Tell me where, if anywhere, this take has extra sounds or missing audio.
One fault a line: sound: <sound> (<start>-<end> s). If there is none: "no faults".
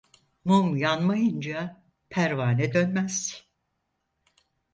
no faults